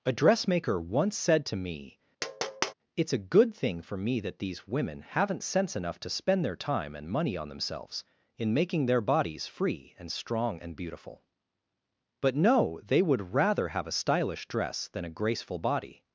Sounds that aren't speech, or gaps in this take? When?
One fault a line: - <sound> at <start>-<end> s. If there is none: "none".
- tap at 2.2-2.7 s